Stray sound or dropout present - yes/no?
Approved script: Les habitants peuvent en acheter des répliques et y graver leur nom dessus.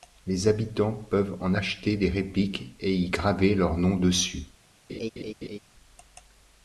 yes